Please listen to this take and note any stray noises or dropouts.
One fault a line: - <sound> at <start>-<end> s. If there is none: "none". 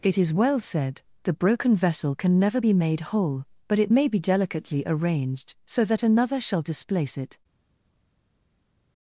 none